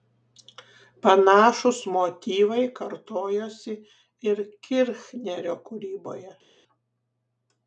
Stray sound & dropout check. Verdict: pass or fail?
pass